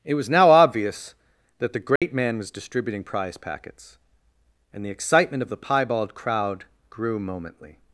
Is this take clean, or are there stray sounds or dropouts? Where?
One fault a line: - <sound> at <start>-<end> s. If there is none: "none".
- dropout at 2.0-2.0 s